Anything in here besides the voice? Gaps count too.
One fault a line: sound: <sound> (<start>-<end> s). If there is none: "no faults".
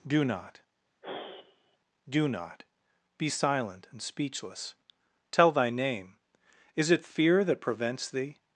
sound: sigh (1.0-1.8 s)